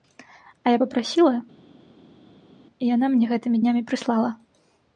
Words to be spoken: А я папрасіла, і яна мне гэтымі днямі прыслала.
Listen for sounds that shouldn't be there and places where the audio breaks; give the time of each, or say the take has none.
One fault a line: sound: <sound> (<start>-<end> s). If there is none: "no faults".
no faults